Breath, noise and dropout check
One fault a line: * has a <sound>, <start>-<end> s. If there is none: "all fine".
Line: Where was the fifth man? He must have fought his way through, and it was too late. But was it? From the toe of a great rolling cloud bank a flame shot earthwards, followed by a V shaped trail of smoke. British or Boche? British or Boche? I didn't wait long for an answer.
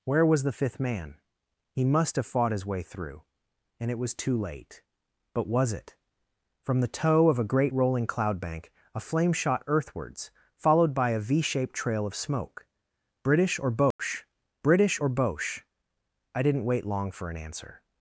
* has a dropout, 13.9-14.0 s